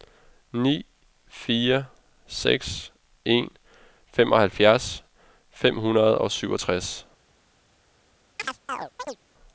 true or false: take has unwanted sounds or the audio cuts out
true